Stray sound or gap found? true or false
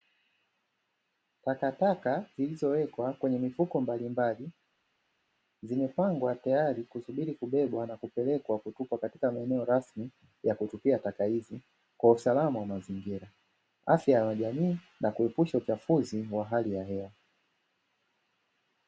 false